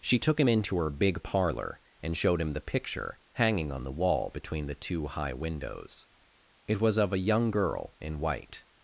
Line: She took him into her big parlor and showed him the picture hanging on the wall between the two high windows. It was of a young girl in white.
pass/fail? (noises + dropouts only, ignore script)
pass